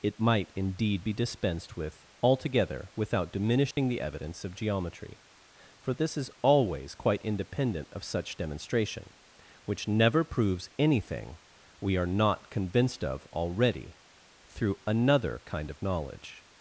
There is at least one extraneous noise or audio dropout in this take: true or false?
true